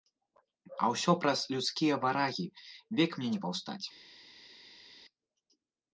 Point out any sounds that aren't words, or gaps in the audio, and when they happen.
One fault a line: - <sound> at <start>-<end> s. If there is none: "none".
none